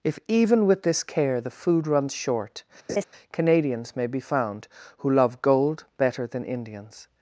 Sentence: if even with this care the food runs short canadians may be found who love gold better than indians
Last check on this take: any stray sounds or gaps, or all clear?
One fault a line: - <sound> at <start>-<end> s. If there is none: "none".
- laugh at 2.9-3.0 s